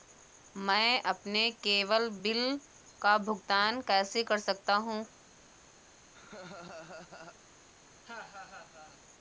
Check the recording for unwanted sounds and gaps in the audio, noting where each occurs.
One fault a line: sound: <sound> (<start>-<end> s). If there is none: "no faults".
sound: laugh (6.1-7.4 s)
sound: laugh (8.0-9.0 s)